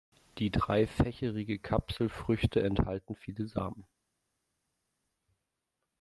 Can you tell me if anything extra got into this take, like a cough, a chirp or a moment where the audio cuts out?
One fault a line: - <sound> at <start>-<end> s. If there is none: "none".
none